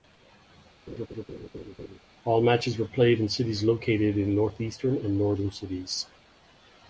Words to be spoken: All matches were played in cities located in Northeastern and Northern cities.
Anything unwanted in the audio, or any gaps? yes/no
yes